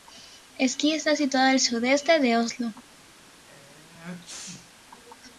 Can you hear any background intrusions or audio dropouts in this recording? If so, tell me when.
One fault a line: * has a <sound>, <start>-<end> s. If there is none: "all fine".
* has a sneeze, 3.5-4.7 s